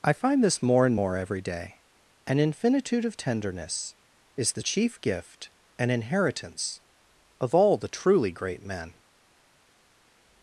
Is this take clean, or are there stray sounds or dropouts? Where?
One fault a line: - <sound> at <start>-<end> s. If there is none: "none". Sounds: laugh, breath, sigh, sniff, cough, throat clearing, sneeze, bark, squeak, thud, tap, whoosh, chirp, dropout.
none